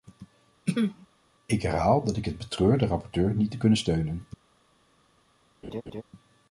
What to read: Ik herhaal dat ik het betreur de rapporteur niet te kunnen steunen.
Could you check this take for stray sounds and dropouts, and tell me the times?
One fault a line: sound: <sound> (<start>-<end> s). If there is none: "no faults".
sound: throat clearing (0.7-1.1 s)
sound: laugh (5.6-6.0 s)